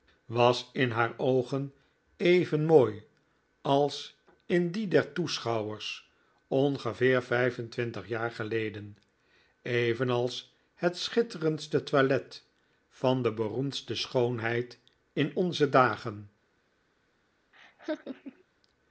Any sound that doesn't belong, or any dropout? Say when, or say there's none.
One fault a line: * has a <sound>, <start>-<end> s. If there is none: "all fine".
* has a laugh, 17.5-18.4 s